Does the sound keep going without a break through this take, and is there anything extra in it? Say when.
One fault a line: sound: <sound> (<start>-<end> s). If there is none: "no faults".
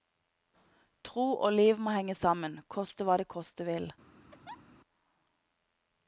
sound: laugh (4.3-4.6 s)